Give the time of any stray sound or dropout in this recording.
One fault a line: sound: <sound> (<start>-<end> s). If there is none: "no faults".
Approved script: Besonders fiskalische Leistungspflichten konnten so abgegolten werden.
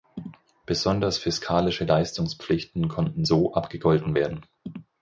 no faults